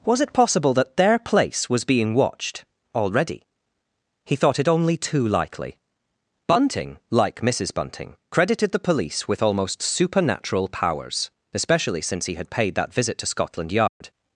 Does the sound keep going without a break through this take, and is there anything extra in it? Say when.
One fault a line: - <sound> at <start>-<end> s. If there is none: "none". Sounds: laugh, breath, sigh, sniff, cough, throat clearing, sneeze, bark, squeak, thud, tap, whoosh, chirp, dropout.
- dropout at 13.9-14.0 s